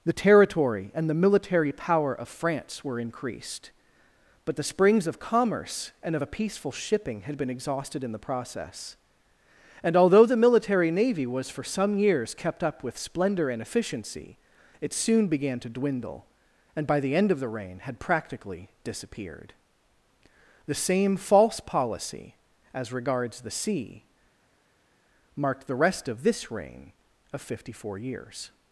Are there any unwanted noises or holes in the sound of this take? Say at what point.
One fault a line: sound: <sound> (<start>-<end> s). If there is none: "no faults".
no faults